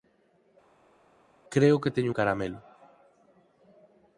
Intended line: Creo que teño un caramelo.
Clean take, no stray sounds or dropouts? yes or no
yes